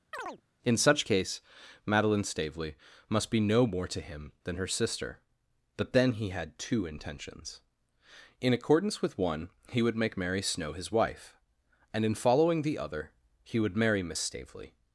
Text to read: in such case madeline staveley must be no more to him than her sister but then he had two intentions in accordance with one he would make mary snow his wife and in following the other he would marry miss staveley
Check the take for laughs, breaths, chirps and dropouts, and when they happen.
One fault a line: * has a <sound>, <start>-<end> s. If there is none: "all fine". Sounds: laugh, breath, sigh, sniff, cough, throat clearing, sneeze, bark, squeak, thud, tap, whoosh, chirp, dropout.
* has a chirp, 0.1-0.4 s